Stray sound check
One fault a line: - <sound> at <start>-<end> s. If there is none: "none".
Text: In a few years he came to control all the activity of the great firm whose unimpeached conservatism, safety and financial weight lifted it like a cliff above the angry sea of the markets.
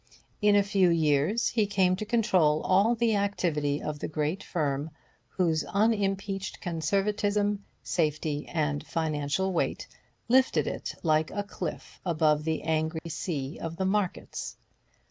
- dropout at 13.0-13.1 s